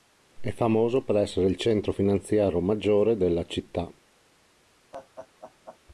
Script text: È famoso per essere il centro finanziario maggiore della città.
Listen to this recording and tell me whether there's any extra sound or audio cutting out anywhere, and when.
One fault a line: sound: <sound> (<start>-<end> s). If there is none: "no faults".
sound: laugh (4.9-5.8 s)